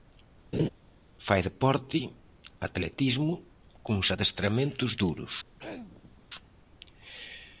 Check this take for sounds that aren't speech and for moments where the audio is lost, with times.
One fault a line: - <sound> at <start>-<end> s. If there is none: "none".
- laugh at 0.5-0.7 s
- throat clearing at 5.6-6.2 s